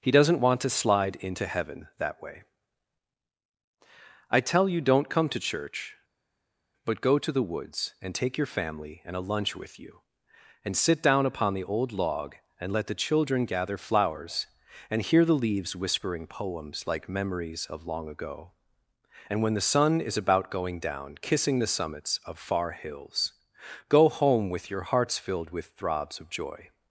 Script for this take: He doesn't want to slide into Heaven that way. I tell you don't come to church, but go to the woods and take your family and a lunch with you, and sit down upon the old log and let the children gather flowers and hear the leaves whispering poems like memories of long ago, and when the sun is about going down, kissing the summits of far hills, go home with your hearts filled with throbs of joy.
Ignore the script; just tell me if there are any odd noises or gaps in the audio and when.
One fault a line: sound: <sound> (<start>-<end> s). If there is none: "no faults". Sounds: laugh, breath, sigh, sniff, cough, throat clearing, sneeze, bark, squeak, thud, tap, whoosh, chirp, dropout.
no faults